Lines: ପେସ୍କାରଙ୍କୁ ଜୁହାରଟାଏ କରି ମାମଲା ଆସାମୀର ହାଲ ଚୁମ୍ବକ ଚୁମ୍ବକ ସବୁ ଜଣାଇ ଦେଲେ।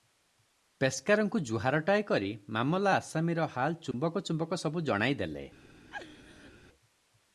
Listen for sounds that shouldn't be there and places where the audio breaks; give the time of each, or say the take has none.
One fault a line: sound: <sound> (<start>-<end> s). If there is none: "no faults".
sound: dropout (3.9-3.9 s)
sound: laugh (5.9-6.5 s)